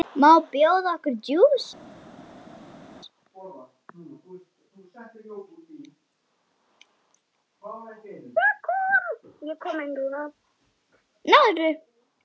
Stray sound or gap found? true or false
false